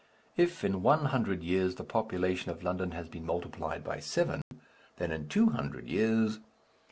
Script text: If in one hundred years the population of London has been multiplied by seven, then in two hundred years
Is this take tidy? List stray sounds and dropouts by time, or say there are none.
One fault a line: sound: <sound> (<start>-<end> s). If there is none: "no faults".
sound: dropout (4.4-4.5 s)